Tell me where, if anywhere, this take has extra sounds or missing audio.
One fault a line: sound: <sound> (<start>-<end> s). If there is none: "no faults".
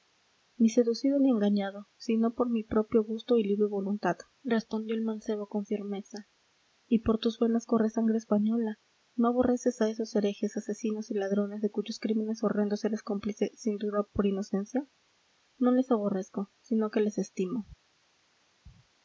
no faults